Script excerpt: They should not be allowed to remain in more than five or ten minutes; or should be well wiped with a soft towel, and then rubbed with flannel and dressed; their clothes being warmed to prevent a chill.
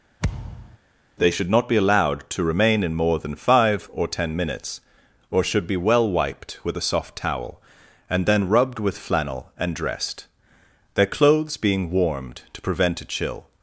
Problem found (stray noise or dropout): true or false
true